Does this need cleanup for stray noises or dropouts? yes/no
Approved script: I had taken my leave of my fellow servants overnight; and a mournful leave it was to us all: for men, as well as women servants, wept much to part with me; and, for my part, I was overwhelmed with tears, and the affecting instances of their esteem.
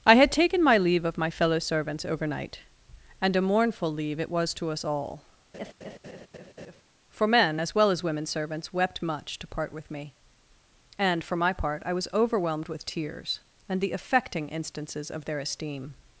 yes